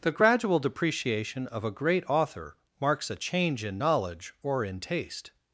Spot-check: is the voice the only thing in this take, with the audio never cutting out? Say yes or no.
yes